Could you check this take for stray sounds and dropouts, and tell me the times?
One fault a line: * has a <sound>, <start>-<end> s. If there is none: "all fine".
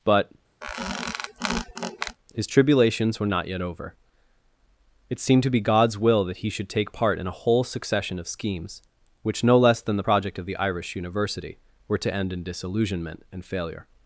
* has a squeak, 0.6-2.2 s